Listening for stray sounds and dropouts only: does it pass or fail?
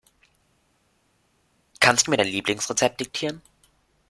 pass